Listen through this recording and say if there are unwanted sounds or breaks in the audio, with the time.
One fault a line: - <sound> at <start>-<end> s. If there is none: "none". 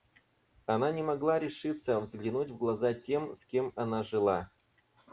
none